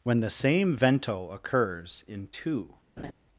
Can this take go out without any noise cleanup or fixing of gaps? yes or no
no